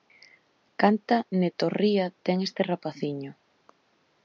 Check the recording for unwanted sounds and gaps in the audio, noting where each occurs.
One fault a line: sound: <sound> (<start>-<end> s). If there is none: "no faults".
no faults